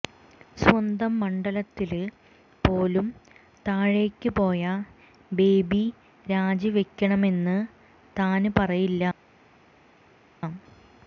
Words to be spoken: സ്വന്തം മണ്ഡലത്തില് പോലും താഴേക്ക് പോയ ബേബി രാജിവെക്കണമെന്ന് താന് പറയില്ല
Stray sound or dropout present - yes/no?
no